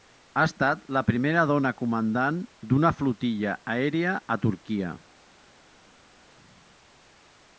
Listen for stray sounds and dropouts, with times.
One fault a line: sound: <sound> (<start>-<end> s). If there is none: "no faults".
no faults